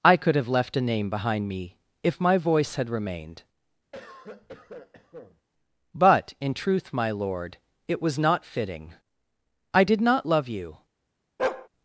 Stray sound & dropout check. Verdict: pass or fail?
fail